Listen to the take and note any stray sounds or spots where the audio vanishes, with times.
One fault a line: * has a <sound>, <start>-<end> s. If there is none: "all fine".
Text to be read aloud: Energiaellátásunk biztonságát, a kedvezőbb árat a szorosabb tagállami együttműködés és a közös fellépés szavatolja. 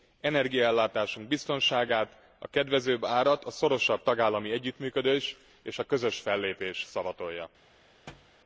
* has a thud, 8.1-8.4 s